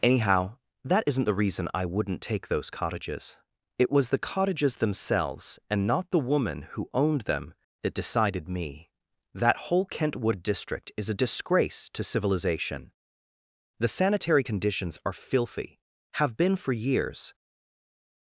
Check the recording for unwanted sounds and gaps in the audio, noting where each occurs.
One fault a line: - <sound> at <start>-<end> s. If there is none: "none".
none